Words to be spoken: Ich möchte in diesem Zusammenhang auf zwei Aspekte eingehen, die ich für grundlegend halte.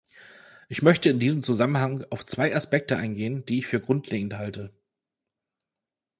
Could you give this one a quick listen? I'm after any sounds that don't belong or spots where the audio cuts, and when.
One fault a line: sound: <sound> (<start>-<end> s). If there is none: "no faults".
no faults